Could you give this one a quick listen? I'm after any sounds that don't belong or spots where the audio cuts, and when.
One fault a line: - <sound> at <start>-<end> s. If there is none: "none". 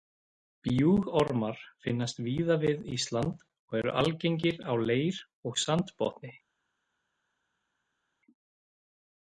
none